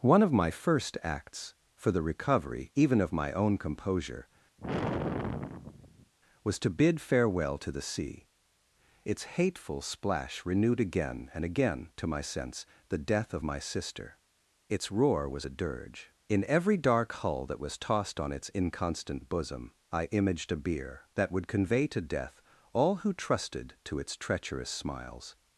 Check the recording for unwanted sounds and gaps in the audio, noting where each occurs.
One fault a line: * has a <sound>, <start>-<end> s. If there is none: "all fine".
* has a sigh, 4.6-6.1 s